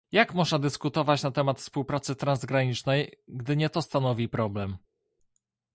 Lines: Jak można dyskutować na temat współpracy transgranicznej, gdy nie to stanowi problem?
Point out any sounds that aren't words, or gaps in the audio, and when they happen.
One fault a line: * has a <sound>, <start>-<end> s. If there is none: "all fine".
all fine